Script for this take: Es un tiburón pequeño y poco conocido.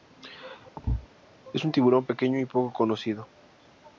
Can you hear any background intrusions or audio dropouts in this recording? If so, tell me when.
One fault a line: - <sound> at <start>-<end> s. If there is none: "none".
- thud at 0.8-1.1 s